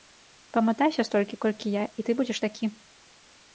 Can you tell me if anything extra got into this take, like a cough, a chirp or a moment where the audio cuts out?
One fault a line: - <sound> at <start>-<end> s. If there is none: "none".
none